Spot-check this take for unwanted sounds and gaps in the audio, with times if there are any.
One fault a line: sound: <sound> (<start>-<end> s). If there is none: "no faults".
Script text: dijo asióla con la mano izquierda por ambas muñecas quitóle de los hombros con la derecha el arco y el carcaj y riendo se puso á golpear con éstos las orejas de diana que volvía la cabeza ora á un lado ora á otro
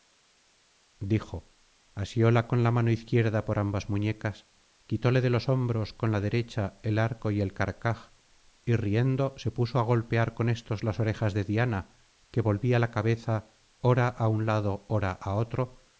no faults